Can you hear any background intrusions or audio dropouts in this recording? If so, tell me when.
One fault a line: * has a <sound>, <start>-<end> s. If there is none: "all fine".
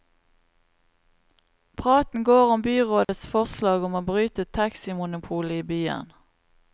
* has a dropout, 3.0-3.1 s